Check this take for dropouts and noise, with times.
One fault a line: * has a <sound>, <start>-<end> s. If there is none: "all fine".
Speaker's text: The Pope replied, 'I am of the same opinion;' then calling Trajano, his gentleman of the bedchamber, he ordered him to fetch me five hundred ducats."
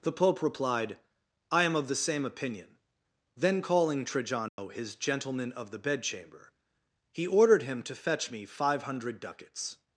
* has a dropout, 4.5-4.6 s